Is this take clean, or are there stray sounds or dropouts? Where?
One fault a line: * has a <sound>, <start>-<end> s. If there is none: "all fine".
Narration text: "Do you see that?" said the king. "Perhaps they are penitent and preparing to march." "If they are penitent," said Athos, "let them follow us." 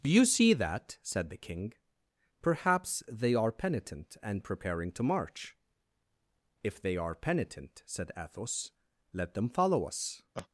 * has a laugh, 10.3-10.5 s